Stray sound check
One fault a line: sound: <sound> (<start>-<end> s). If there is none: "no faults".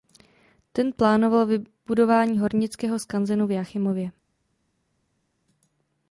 no faults